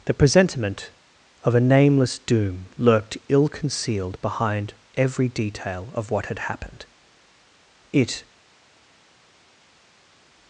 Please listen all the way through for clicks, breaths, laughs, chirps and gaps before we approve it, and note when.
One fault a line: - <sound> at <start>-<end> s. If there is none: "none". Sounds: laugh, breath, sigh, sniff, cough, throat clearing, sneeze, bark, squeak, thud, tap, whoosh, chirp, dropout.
none